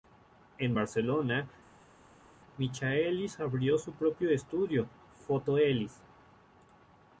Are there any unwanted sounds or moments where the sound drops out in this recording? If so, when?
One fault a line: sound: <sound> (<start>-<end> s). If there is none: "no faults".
no faults